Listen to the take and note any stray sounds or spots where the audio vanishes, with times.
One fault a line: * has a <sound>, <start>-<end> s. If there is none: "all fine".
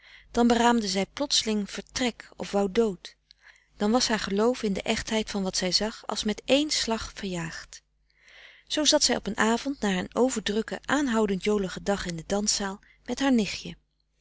all fine